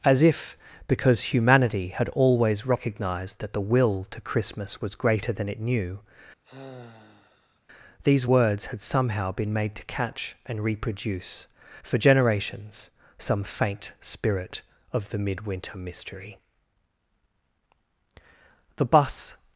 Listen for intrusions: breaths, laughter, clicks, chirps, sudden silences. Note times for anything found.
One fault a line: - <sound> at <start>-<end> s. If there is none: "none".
- sigh at 6.4-7.6 s